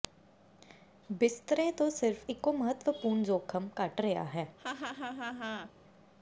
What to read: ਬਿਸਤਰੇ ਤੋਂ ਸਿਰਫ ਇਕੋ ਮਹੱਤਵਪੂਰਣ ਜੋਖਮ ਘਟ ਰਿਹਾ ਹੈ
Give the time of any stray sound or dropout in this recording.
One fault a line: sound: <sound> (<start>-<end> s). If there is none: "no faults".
sound: laugh (4.6-5.7 s)